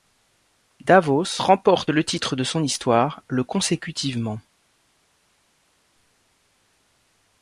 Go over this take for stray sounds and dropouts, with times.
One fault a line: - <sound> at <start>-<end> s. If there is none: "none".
none